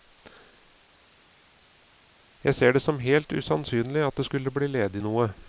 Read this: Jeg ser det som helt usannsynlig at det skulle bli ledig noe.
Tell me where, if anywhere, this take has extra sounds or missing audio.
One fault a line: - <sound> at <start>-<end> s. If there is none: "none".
none